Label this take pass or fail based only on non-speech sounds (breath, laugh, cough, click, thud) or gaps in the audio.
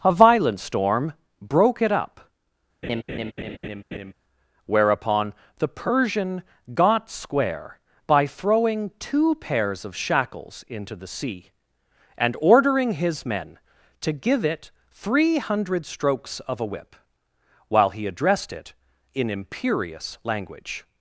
fail